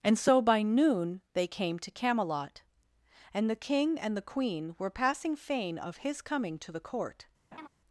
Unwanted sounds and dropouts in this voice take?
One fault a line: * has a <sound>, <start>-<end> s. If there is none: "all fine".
* has a laugh, 7.5-7.7 s